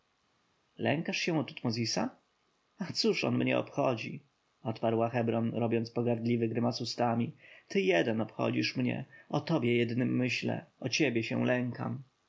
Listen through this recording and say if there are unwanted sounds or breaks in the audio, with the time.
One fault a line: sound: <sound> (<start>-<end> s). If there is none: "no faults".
no faults